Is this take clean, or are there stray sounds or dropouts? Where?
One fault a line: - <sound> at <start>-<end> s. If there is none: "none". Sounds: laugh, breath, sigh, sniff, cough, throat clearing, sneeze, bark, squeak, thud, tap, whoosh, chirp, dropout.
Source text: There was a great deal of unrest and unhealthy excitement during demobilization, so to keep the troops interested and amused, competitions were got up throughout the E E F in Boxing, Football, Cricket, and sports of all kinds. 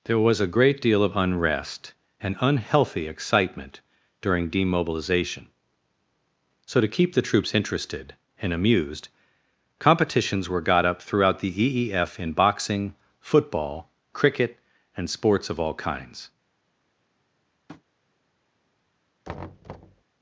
- tap at 17.7-17.8 s
- thud at 19.2-20.0 s